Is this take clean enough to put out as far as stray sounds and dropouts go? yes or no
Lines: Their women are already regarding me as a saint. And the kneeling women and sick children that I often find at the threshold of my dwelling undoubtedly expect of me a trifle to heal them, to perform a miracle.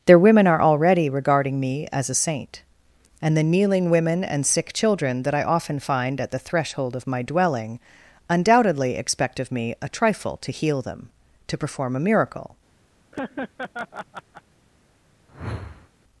no